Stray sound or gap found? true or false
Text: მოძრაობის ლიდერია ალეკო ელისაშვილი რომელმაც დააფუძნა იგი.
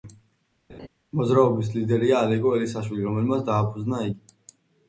true